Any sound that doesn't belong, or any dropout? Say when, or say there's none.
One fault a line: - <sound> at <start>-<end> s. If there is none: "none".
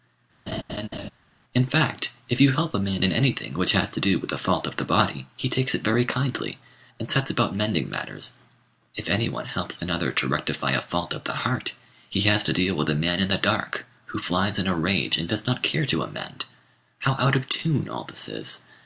- laugh at 0.5-1.1 s